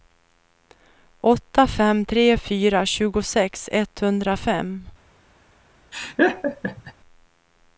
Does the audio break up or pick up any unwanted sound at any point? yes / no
yes